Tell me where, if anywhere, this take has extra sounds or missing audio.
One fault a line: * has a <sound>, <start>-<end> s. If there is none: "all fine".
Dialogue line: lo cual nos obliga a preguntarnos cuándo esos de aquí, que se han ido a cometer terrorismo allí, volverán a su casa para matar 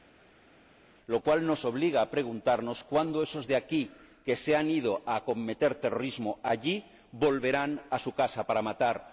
all fine